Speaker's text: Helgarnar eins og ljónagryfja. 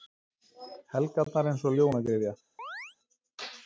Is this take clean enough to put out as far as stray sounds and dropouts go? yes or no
no